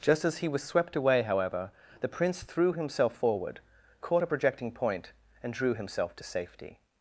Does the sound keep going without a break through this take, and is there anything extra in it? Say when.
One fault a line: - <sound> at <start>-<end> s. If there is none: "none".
none